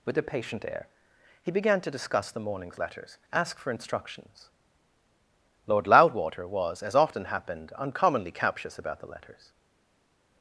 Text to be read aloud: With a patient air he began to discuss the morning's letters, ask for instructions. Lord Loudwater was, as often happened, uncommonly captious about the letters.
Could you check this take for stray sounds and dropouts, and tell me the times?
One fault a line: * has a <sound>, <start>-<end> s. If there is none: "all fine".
all fine